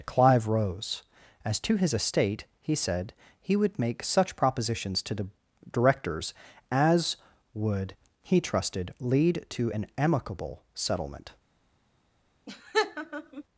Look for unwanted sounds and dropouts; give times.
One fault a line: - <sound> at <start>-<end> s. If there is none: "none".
- laugh at 12.5-13.4 s